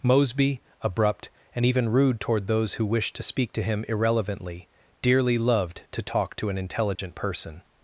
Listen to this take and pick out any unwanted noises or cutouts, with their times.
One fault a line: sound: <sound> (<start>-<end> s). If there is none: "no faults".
sound: dropout (6.9-7.0 s)